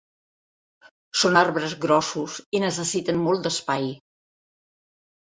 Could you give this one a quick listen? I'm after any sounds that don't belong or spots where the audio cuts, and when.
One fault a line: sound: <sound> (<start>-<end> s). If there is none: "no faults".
no faults